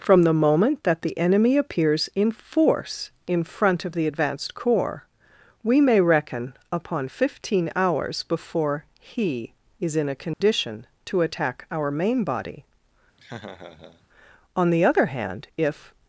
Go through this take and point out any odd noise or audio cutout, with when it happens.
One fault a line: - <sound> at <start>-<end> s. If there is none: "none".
- dropout at 10.3-10.4 s
- laugh at 13.2-14.1 s